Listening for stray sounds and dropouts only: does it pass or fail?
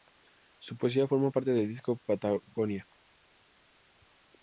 pass